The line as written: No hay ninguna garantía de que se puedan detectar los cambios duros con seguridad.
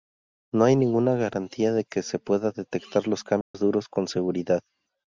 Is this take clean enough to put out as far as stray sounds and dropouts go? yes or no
no